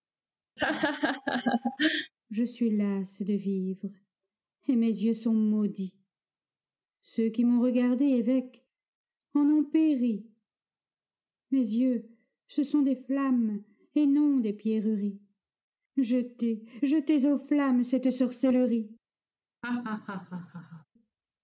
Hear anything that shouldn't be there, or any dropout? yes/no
yes